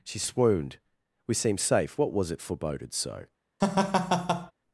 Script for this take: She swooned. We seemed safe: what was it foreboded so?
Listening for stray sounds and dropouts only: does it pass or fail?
fail